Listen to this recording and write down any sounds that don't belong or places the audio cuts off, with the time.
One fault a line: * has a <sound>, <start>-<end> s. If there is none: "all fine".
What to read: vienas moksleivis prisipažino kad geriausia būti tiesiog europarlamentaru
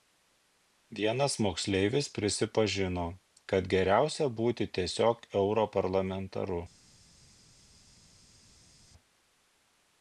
all fine